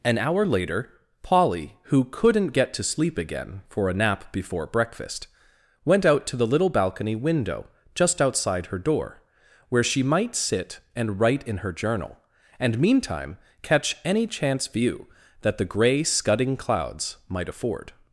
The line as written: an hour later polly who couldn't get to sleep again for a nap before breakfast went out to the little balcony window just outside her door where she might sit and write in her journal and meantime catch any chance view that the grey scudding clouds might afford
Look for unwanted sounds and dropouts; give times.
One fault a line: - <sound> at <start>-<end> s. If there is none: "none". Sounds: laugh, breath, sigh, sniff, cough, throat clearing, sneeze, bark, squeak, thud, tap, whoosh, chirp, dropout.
none